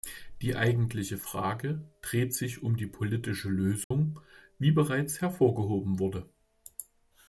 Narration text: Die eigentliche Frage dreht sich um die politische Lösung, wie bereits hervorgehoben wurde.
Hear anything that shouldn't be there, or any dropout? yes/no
yes